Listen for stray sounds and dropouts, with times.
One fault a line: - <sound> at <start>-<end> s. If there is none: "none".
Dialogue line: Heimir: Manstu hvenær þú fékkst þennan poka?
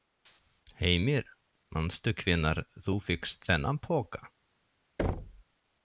- thud at 5.0-5.4 s